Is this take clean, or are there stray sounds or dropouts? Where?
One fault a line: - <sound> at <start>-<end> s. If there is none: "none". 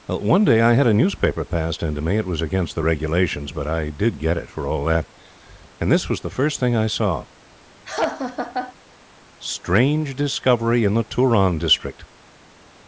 - laugh at 7.9-8.7 s